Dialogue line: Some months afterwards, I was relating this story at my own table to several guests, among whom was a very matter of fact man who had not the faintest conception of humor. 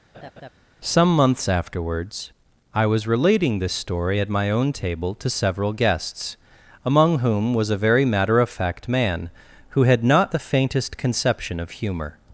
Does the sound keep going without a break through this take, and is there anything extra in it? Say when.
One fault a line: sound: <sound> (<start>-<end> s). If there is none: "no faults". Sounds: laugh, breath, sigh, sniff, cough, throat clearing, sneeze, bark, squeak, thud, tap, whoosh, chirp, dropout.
sound: laugh (0.1-0.5 s)